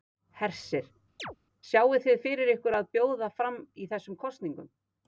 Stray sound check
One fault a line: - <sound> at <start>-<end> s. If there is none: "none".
- chirp at 1.2-1.4 s